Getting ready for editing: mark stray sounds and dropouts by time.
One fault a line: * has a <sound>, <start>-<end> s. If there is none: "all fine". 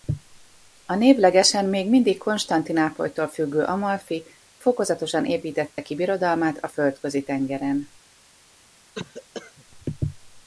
* has a dropout, 5.7-5.8 s
* has a cough, 8.9-9.6 s